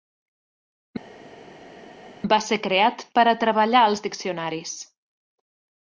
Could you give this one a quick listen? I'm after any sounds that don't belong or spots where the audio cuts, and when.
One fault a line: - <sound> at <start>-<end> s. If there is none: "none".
none